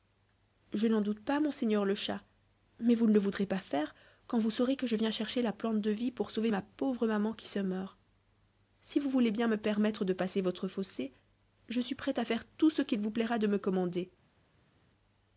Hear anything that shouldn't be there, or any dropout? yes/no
no